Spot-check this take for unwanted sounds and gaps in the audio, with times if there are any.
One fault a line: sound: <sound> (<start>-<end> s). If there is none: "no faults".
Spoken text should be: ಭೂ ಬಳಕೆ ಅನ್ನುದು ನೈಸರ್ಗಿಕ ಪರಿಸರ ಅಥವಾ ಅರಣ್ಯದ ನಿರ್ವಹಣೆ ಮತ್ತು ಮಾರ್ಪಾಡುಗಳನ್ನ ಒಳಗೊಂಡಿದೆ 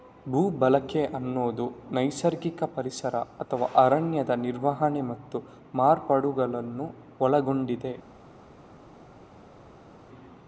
no faults